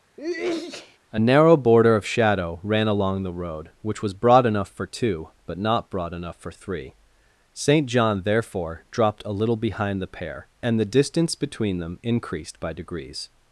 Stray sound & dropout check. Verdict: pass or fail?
fail